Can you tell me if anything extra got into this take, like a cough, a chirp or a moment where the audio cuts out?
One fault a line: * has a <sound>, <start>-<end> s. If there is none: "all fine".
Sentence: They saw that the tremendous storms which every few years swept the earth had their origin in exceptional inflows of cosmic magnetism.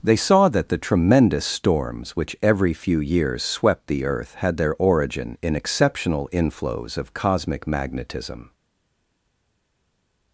all fine